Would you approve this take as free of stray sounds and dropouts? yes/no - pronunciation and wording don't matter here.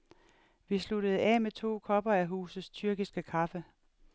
yes